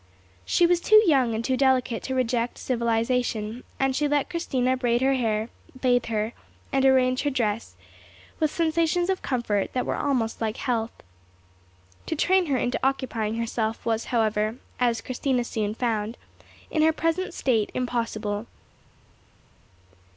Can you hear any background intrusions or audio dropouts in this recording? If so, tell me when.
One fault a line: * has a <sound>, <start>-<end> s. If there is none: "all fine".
all fine